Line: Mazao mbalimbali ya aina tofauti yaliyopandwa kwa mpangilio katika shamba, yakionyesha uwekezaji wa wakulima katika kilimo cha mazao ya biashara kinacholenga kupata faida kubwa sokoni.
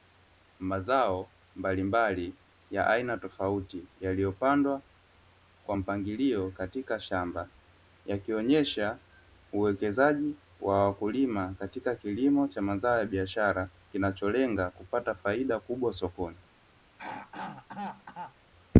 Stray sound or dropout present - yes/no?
yes